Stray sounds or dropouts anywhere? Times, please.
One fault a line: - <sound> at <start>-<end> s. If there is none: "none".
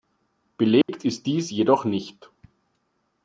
- dropout at 0.8-0.9 s